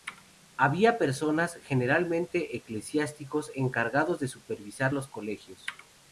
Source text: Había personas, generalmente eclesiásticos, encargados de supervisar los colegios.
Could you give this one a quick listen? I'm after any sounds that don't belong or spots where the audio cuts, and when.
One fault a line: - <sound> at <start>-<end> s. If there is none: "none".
none